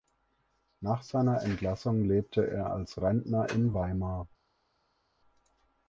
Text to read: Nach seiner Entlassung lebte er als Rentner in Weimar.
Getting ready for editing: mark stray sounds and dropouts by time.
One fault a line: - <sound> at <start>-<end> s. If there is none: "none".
none